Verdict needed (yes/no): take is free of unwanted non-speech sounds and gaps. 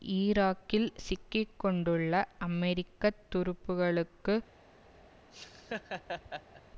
no